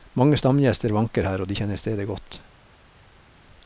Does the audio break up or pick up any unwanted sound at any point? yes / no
no